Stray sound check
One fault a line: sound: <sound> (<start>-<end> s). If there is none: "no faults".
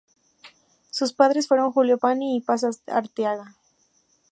no faults